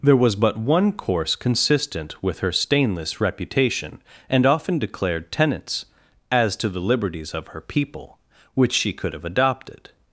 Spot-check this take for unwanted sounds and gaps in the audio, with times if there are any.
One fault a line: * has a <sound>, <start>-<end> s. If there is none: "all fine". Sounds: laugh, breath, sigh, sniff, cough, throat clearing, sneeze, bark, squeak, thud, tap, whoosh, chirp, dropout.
all fine